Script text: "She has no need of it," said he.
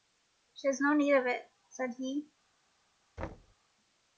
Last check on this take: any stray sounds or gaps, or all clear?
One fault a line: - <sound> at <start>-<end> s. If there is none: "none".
- thud at 3.2-3.6 s